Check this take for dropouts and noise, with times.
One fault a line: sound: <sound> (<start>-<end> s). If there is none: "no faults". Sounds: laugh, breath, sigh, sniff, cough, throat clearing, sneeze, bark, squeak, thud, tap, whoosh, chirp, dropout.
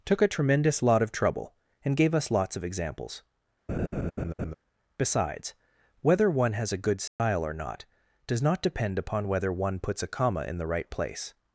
sound: laugh (3.7-4.5 s)
sound: dropout (7.1-7.2 s)